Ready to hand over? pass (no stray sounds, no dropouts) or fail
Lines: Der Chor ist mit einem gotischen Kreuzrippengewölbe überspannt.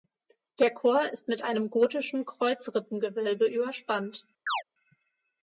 fail